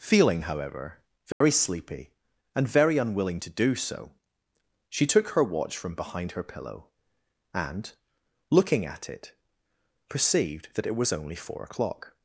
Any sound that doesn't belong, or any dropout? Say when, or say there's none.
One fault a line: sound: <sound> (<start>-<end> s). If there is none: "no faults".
sound: dropout (1.3-1.4 s)